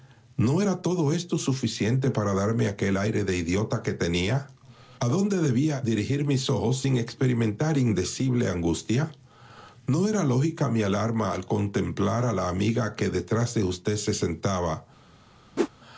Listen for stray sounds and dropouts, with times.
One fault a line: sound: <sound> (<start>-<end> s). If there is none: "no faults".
sound: whoosh (15.6-15.7 s)